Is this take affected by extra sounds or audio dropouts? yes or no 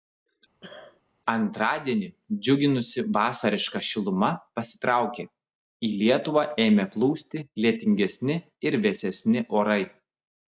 yes